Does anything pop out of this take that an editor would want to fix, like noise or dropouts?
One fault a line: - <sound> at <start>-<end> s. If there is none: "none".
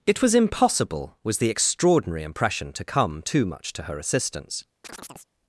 - chirp at 4.8-5.3 s